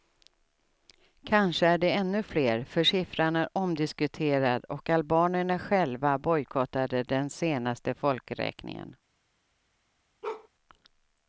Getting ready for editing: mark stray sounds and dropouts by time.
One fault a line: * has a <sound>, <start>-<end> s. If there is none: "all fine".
* has a bark, 10.2-10.5 s